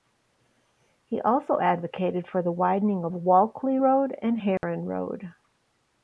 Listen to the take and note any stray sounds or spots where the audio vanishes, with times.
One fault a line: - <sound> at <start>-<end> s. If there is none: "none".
- dropout at 4.6-4.6 s